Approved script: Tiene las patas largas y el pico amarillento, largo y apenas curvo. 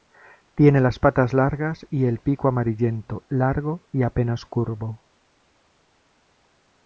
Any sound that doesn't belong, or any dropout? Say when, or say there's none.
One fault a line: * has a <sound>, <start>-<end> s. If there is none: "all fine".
all fine